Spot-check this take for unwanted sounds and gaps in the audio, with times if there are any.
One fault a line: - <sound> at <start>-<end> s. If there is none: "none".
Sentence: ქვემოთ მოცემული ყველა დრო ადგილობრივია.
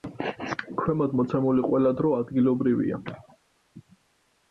none